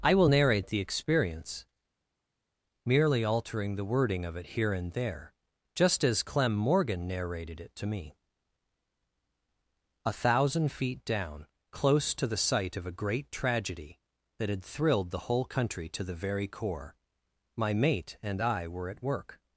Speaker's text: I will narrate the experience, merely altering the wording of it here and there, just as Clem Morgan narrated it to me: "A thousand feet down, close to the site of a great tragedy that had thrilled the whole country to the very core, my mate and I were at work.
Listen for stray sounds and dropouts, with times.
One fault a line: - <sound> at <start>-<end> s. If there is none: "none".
none